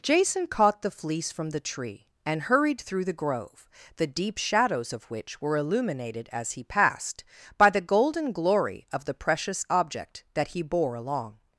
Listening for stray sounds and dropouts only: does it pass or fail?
pass